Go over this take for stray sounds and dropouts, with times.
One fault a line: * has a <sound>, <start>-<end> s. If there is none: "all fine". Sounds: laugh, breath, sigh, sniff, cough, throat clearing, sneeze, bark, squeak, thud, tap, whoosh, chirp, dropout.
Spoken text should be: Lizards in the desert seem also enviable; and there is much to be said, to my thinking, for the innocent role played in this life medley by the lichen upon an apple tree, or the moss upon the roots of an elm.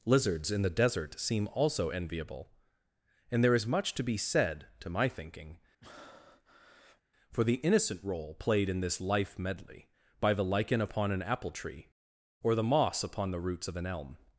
* has a breath, 5.8-7.0 s